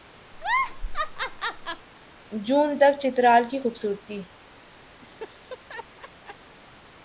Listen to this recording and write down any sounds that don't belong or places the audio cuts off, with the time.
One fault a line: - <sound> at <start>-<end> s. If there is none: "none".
- laugh at 0.3-1.9 s
- laugh at 5.0-6.6 s